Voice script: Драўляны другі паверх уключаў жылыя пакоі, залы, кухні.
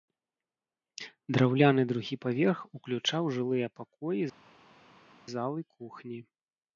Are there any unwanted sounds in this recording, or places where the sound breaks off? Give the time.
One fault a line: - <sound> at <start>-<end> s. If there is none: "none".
none